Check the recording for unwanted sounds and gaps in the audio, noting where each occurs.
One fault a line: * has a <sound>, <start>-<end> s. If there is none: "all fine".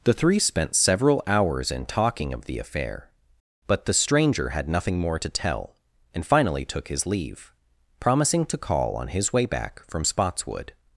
all fine